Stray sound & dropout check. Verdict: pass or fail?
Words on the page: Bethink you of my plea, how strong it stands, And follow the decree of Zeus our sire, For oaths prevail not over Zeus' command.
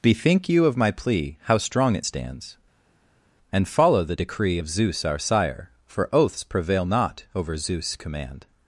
pass